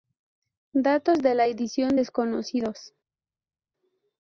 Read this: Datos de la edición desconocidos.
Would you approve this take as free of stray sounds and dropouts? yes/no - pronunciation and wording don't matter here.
yes